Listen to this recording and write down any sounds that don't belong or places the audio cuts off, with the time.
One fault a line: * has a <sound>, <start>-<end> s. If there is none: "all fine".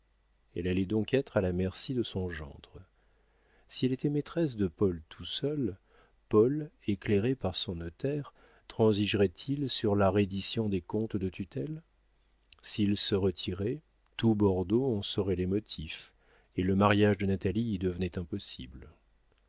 all fine